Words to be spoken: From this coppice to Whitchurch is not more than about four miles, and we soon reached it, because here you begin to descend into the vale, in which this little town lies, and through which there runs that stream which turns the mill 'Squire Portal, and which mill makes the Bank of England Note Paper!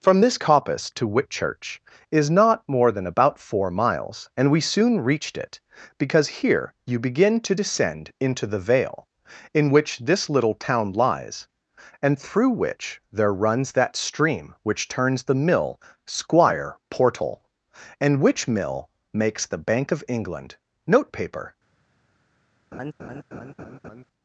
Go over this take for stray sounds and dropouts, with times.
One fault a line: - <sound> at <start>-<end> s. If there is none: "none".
- laugh at 22.7-24.0 s